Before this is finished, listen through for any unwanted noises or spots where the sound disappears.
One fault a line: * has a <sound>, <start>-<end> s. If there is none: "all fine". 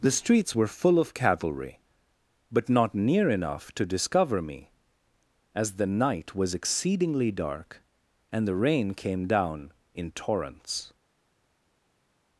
all fine